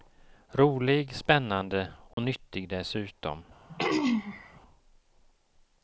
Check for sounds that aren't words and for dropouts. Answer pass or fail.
fail